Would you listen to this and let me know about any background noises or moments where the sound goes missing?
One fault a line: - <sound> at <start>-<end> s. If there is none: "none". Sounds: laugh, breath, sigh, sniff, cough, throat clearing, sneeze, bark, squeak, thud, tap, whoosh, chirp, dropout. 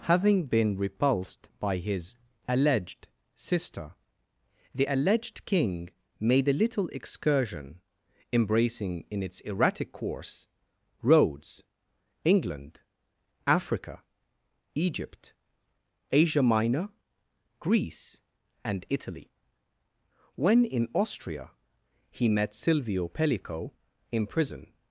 none